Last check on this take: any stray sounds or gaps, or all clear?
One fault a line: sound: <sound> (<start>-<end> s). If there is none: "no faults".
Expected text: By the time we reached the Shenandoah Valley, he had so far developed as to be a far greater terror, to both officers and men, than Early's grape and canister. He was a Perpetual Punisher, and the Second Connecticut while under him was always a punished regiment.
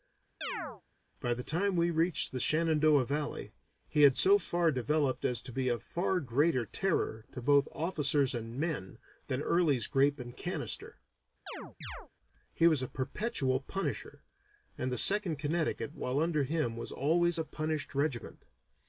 sound: chirp (0.4-0.8 s)
sound: chirp (11.5-12.1 s)